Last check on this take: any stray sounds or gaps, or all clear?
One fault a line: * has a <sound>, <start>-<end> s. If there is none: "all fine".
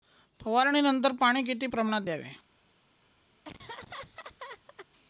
* has a laugh, 3.4-4.9 s